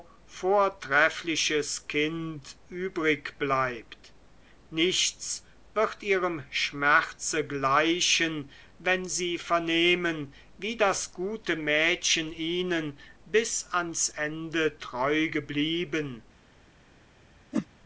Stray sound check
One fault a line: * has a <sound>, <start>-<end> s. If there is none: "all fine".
* has a whoosh, 17.5-17.7 s